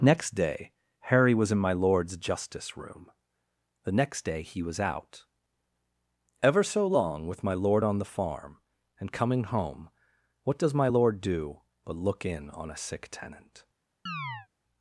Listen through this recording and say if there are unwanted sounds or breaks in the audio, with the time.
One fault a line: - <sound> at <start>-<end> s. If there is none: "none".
- chirp at 14.1-14.5 s